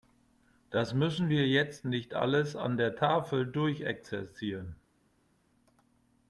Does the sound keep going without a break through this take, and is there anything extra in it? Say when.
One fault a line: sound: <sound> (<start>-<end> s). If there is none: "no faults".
no faults